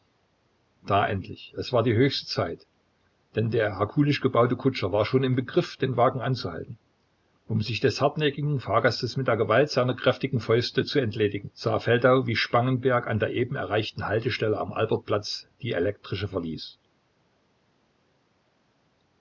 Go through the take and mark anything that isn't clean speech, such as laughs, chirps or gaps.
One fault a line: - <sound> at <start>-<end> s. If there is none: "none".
none